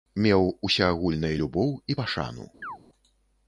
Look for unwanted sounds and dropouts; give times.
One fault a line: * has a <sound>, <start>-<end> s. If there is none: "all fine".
* has a chirp, 2.6-2.8 s